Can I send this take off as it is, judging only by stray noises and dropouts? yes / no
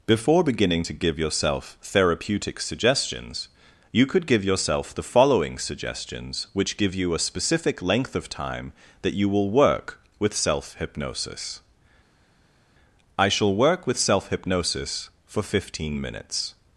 yes